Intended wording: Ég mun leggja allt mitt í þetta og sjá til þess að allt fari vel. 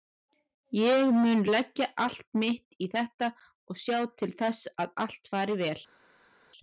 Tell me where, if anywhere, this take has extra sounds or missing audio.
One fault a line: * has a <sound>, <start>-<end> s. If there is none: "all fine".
all fine